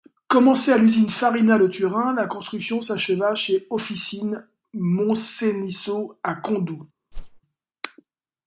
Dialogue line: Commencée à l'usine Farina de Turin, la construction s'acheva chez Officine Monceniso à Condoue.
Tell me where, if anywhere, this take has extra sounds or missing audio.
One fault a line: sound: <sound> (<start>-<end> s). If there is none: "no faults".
sound: whoosh (7.1-7.4 s)